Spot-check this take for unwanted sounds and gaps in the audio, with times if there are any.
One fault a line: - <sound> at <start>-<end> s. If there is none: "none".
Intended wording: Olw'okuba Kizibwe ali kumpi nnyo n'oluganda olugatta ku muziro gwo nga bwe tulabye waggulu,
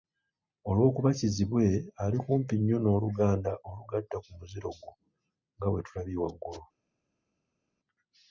none